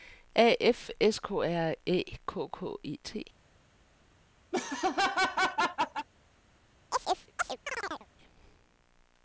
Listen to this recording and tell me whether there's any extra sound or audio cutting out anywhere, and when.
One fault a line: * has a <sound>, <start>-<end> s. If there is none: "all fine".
* has a laugh, 4.5-6.1 s
* has a chirp, 6.9-8.1 s